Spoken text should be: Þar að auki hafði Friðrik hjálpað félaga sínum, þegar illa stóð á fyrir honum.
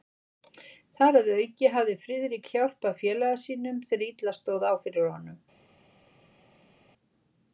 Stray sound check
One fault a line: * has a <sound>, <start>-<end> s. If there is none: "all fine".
all fine